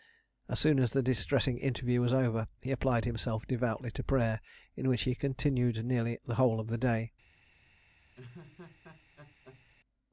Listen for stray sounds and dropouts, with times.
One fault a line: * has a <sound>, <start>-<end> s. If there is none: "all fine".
* has a laugh, 8.2-9.7 s